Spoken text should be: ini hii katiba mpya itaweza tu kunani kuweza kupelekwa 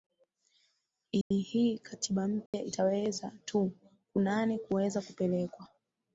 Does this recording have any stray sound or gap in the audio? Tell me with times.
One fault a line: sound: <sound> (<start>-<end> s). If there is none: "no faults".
sound: dropout (1.2-1.3 s)
sound: dropout (2.5-2.5 s)